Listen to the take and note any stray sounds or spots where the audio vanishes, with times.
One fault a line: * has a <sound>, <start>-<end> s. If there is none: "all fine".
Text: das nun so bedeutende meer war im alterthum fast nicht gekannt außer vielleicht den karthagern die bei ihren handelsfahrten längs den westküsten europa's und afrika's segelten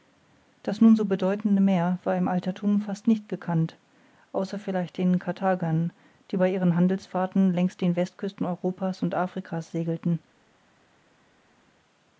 all fine